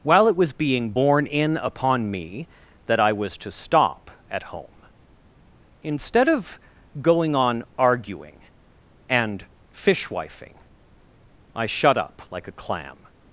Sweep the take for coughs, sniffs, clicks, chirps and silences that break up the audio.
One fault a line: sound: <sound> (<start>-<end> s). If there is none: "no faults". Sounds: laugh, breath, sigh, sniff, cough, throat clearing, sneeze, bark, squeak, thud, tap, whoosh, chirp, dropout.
no faults